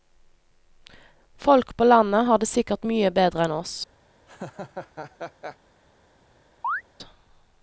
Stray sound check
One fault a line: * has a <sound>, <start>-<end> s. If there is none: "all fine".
* has a laugh, 4.3-5.6 s
* has a chirp, 6.6-6.8 s